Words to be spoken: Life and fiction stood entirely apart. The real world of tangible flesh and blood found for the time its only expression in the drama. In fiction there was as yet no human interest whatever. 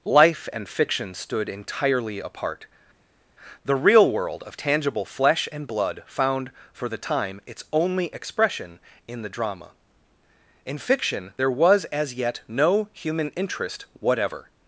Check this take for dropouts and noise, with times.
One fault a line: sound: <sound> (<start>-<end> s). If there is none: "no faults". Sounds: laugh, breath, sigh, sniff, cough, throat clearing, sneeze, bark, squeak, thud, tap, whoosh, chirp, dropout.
no faults